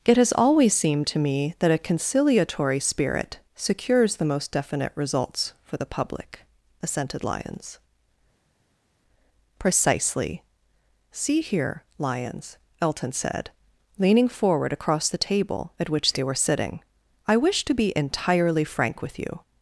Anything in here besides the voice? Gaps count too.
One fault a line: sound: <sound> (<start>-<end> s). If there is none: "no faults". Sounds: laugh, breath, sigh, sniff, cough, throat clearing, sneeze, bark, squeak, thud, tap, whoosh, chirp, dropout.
no faults